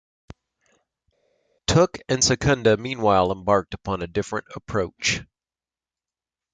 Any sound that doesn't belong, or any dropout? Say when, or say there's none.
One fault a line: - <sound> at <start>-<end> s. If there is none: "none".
none